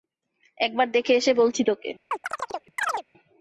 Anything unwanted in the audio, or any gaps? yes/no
yes